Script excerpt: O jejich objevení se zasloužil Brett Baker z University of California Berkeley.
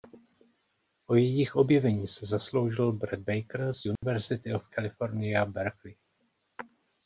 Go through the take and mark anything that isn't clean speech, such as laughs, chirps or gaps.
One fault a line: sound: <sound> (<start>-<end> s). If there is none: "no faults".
sound: dropout (4.0-4.0 s)